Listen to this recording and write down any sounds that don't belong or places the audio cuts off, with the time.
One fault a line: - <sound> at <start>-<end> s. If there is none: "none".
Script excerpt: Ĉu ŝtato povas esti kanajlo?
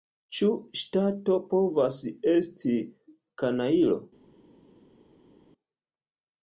none